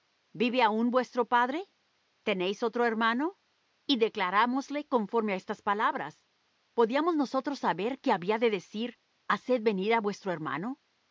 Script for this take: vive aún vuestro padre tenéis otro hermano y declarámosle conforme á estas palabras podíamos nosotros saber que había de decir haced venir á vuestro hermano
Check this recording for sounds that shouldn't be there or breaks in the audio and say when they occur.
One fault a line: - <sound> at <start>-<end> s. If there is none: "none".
none